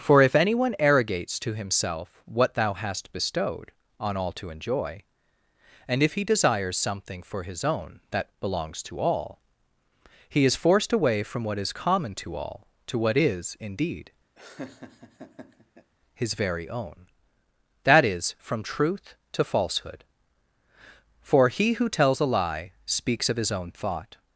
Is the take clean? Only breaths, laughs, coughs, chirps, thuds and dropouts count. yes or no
no